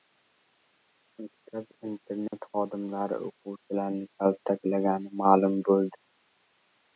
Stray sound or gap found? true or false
true